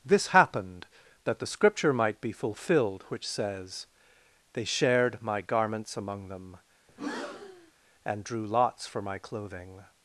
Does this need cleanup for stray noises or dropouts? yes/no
yes